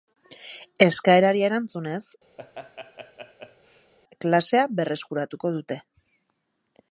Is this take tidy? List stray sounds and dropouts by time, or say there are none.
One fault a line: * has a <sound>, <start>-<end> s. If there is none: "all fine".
* has a laugh, 2.4-3.9 s